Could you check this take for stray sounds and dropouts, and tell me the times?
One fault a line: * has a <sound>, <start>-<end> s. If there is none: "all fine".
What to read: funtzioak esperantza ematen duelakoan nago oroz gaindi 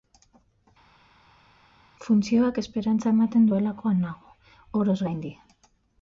all fine